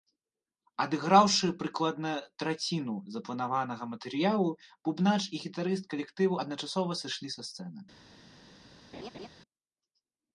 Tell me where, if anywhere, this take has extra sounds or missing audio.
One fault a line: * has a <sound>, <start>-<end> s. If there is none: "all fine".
* has a laugh, 8.9-9.3 s